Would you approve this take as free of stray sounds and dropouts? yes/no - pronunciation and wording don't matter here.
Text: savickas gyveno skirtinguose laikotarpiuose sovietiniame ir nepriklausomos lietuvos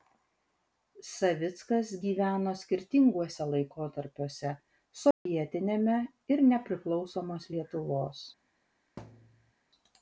no